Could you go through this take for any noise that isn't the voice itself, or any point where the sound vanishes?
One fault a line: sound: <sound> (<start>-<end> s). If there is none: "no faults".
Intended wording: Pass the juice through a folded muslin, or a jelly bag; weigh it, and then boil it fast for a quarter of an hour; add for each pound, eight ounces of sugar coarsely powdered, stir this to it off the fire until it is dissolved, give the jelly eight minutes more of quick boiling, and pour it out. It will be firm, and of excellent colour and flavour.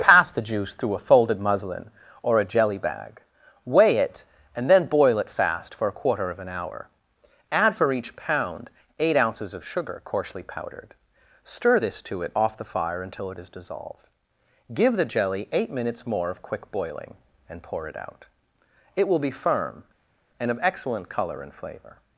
no faults